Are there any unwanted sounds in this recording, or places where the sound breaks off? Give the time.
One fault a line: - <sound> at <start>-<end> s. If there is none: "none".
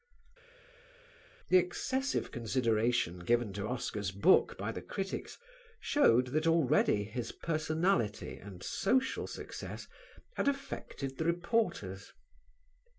none